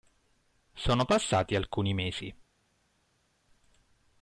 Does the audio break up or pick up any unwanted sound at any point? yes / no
no